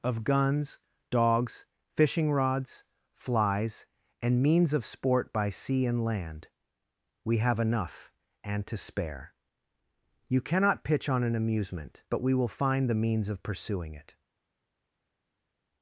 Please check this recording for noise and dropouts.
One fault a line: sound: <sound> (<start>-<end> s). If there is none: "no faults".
no faults